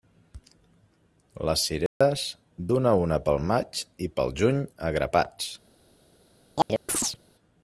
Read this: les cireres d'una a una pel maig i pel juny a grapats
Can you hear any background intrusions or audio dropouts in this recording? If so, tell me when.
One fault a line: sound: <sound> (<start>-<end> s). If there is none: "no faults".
sound: dropout (1.9-2.0 s)
sound: chirp (6.6-7.2 s)